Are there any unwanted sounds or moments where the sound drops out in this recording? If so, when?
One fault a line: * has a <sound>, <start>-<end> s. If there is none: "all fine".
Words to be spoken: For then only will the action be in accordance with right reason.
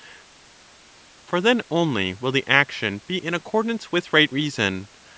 all fine